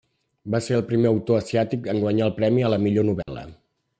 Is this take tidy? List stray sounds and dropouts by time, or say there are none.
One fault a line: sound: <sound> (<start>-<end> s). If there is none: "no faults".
sound: dropout (3.2-3.3 s)